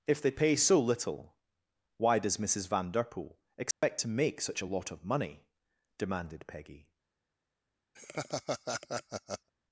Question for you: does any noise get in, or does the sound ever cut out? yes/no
yes